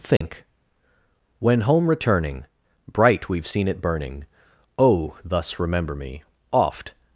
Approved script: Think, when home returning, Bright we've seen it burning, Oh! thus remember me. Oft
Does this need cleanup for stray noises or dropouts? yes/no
yes